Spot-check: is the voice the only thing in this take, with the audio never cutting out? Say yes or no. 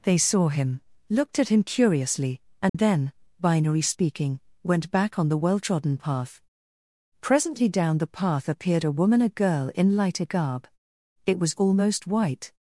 no